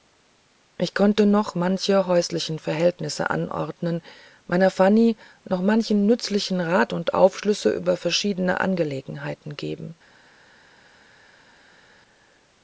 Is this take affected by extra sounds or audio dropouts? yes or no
no